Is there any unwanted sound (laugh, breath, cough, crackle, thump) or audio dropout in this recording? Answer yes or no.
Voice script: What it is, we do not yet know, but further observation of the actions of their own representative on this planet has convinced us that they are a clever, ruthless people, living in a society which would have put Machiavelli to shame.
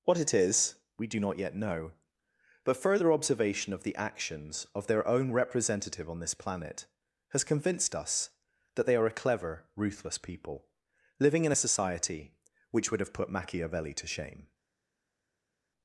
no